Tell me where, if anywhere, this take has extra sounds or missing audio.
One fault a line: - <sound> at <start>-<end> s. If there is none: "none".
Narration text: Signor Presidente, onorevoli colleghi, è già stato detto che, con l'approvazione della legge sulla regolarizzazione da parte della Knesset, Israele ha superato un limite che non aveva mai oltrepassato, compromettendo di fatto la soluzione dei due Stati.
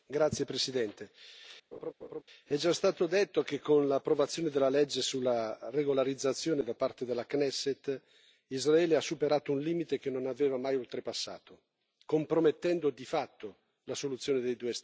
- laugh at 1.7-2.2 s